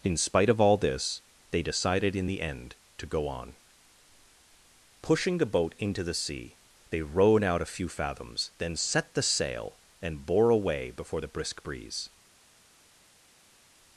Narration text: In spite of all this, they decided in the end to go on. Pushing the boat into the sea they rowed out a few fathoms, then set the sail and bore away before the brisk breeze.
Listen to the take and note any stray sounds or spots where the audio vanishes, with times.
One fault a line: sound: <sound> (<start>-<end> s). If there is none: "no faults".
no faults